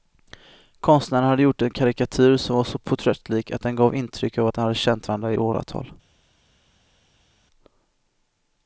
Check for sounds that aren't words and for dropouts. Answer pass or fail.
pass